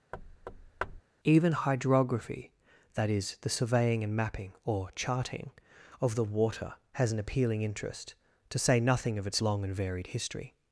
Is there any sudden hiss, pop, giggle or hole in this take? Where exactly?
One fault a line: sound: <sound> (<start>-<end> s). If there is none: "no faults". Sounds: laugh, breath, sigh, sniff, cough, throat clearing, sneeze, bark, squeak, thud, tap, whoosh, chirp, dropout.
sound: thud (0.1-1.0 s)